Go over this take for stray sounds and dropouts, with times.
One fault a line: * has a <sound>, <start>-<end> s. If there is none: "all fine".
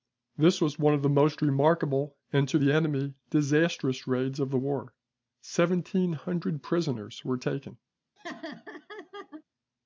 * has a laugh, 8.2-9.4 s